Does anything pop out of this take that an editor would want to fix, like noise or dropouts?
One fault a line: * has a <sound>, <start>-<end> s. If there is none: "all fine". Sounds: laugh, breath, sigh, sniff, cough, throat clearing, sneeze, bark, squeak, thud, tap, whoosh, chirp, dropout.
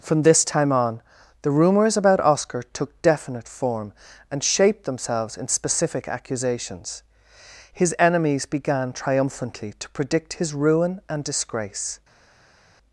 all fine